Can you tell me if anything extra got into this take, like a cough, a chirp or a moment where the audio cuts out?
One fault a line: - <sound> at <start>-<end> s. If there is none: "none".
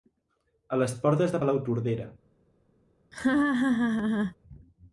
- laugh at 3.1-4.4 s